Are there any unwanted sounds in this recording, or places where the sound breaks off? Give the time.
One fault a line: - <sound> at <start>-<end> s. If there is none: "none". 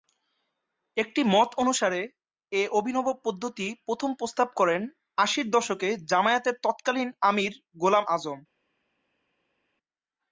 none